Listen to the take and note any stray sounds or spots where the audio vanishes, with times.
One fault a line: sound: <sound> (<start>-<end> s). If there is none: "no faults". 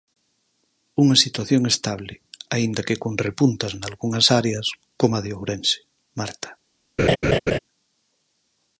sound: laugh (7.0-7.6 s)